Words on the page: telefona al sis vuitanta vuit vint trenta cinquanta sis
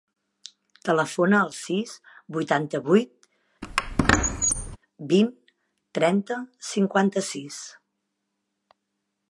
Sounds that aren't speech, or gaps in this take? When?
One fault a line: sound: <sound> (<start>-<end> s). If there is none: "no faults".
sound: squeak (3.6-4.8 s)